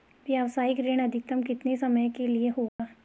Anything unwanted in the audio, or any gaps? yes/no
yes